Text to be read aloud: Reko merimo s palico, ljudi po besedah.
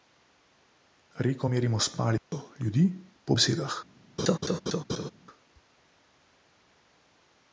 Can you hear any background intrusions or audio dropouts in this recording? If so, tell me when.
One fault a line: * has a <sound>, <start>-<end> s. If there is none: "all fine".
* has a dropout, 2.2-2.3 s
* has a laugh, 4.2-5.1 s